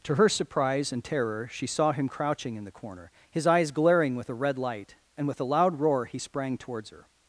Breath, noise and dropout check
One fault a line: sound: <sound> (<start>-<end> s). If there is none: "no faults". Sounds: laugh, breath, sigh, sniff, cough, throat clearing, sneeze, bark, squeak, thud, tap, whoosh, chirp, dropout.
no faults